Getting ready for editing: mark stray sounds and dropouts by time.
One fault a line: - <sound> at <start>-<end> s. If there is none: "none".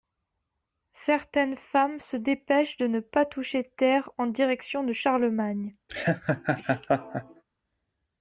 - laugh at 5.9-7.4 s